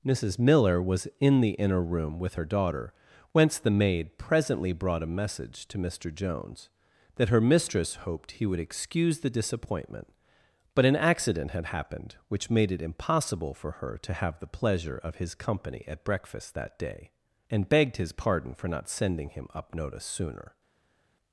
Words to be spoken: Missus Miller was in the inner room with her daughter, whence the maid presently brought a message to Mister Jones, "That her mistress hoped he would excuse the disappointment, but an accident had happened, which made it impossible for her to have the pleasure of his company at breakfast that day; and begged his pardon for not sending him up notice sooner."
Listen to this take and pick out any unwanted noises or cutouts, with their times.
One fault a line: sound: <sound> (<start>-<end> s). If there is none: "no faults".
no faults